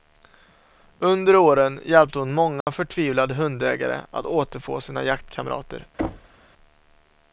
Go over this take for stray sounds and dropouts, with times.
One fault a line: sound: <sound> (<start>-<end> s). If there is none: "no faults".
sound: dropout (2.6-2.7 s)
sound: thud (6.0-6.4 s)